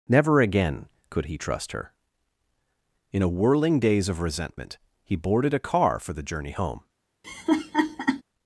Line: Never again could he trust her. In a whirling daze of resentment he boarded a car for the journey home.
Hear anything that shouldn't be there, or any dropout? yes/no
yes